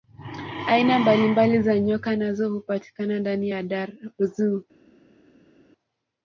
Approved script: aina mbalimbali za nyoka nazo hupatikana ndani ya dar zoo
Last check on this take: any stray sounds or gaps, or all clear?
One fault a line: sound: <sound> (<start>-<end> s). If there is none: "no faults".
no faults